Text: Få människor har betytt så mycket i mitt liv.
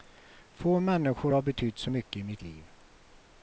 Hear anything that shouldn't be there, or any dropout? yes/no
no